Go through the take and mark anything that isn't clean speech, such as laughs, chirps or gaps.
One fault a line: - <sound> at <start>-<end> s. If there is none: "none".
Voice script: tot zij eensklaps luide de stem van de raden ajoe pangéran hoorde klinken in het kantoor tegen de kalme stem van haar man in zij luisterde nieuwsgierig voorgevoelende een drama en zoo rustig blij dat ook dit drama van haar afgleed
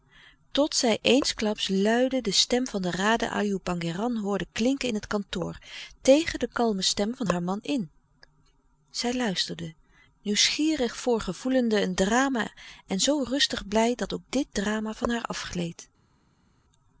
none